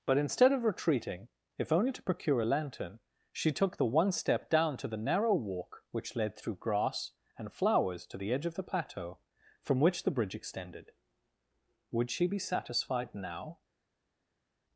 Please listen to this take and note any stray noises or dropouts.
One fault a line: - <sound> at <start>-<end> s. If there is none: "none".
none